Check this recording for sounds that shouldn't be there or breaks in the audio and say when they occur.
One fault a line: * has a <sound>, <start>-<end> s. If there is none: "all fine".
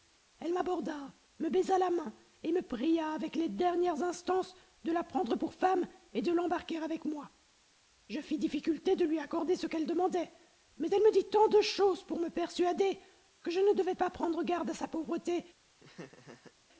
* has a laugh, 15.8-16.5 s